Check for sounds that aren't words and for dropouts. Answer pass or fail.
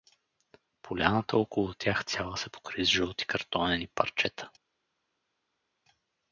pass